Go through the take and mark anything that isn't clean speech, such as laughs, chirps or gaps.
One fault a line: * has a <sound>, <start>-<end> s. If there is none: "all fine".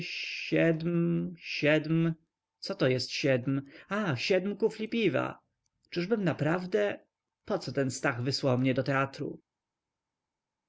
all fine